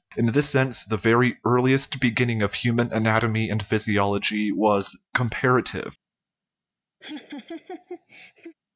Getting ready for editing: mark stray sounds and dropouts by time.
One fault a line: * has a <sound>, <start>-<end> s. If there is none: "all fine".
* has a laugh, 7.0-8.6 s